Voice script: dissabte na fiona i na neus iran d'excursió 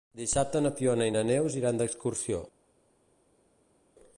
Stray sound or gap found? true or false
false